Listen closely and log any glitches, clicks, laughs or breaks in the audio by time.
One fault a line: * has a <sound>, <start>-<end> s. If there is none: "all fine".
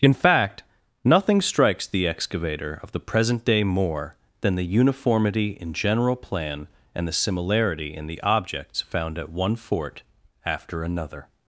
all fine